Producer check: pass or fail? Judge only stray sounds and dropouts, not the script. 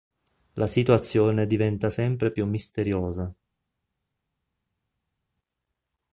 pass